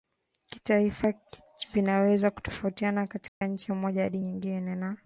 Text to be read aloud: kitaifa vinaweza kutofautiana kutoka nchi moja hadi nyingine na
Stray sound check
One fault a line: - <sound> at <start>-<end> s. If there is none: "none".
- dropout at 3.3-3.4 s